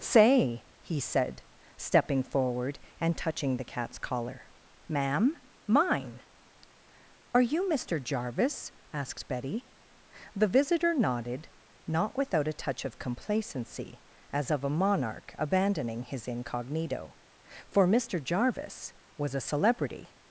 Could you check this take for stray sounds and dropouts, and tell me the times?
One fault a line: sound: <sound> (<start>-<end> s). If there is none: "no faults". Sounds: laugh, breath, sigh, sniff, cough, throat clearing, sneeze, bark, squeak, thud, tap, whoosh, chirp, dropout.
no faults